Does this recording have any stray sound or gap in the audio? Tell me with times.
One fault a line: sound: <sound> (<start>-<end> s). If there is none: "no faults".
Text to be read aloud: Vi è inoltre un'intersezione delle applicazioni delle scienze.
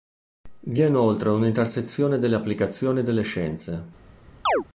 sound: chirp (4.5-4.6 s)